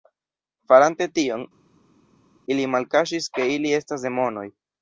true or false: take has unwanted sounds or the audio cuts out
false